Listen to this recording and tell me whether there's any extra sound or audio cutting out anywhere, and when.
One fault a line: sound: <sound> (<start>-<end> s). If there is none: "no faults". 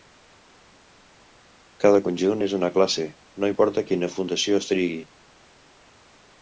no faults